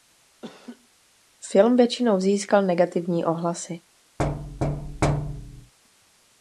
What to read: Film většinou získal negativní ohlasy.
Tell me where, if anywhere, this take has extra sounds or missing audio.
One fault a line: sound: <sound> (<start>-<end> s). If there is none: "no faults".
sound: laugh (0.4-0.9 s)
sound: thud (4.2-5.7 s)